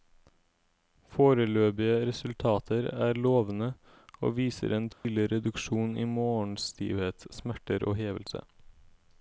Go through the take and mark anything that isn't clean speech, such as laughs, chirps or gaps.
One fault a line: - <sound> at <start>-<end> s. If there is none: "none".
- dropout at 4.9-5.0 s